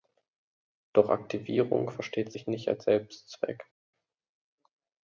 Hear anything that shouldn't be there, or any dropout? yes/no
no